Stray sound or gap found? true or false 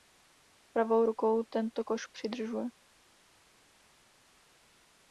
false